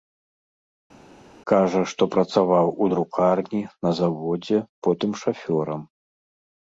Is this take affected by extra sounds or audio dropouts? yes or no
no